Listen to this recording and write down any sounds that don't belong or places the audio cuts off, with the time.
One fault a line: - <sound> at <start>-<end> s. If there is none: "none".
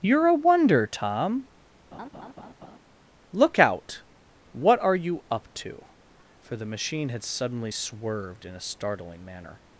- laugh at 1.9-2.8 s